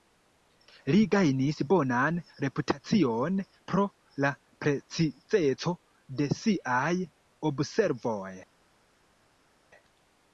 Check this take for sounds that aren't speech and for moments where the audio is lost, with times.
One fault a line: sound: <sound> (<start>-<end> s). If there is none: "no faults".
no faults